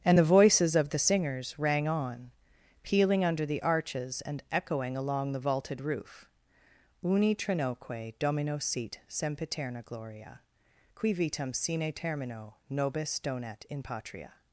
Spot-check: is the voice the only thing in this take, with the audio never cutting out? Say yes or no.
yes